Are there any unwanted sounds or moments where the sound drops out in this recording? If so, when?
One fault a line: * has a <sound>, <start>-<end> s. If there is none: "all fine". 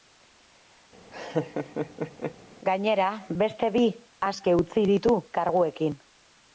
* has a laugh, 1.1-2.4 s